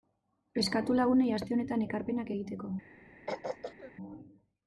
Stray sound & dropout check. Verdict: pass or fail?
fail